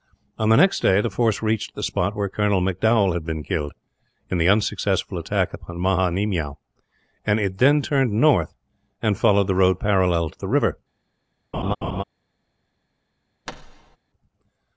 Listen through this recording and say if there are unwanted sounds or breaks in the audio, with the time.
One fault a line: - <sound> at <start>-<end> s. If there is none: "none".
- laugh at 11.5-12.0 s
- thud at 13.5-14.0 s